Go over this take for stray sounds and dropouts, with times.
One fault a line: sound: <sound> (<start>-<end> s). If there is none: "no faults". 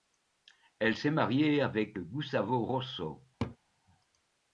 sound: laugh (3.4-3.6 s)